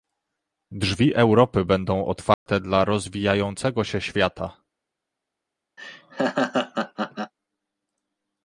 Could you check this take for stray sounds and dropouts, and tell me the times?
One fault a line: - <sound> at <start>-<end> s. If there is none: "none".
- dropout at 2.3-2.5 s
- laugh at 5.8-7.3 s